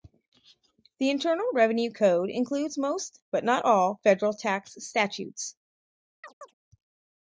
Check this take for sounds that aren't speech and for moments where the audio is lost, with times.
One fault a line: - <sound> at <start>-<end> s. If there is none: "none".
- chirp at 6.2-6.5 s